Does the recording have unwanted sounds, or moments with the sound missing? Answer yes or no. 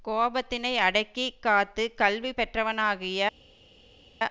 no